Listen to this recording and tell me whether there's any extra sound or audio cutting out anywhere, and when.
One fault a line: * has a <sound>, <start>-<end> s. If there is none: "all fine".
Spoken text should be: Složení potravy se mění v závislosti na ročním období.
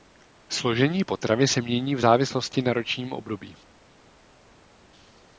all fine